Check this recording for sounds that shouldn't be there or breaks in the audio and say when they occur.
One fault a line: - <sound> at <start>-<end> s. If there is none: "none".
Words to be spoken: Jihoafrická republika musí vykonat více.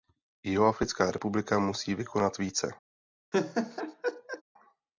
- laugh at 3.3-4.4 s